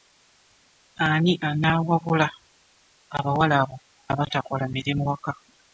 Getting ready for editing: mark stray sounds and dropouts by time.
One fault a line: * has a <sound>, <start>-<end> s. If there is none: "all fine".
all fine